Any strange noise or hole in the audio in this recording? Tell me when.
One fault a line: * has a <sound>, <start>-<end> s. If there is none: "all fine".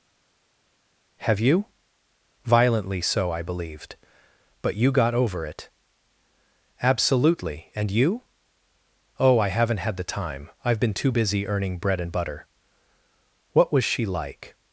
all fine